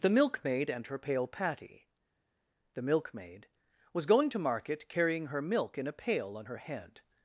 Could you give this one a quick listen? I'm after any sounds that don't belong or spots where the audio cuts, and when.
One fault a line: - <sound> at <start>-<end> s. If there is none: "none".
none